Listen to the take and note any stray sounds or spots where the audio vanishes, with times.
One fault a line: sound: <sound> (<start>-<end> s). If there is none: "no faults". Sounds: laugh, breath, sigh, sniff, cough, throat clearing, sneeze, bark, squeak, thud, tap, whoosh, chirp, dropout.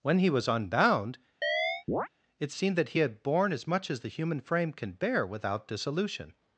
sound: chirp (1.4-2.1 s)